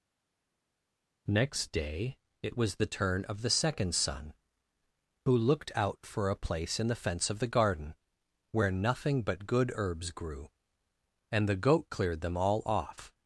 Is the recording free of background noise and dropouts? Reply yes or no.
yes